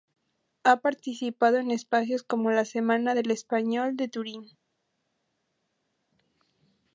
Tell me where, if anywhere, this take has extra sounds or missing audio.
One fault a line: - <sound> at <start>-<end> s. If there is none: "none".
none